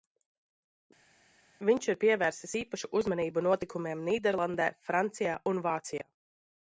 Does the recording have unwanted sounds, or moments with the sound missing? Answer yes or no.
no